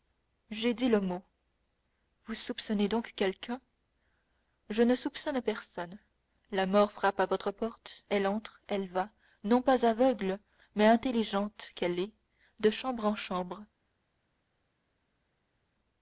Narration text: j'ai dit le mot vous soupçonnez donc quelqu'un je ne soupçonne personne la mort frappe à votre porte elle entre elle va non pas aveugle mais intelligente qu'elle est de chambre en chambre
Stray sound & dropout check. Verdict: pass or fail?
pass